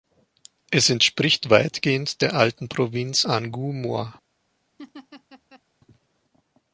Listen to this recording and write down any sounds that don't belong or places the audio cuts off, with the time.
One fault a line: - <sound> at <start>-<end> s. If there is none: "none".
- laugh at 4.8-5.6 s